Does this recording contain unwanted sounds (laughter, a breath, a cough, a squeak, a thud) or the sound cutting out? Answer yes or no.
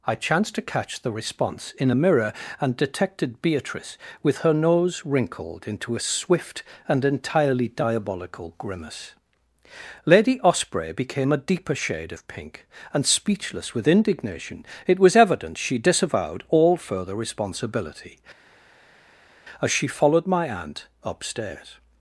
no